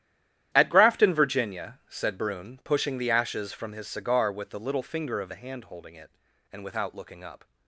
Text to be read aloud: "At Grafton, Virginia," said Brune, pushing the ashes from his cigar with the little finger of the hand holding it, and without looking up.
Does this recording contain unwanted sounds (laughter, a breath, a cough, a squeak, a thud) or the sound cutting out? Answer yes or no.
no